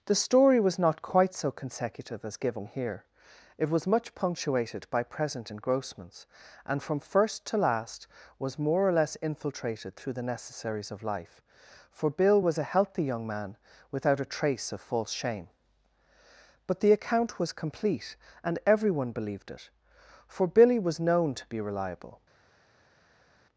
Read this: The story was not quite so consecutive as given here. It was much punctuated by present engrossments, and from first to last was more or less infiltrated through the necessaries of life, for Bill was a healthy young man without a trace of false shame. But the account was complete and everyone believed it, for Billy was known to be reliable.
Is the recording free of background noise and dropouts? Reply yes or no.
yes